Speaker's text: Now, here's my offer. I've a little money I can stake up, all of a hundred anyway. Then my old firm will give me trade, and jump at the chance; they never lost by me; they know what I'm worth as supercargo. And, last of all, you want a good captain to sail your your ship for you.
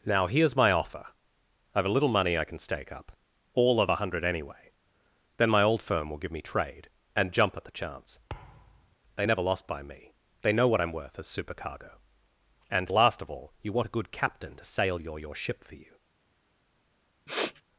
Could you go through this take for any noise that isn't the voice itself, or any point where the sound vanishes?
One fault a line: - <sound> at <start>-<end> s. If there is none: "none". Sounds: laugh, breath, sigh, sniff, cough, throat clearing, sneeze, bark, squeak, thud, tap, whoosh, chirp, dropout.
- thud at 8.3-9.0 s
- sniff at 17.3-17.6 s